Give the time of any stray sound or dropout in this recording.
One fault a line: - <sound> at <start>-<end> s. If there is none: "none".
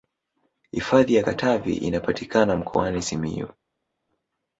none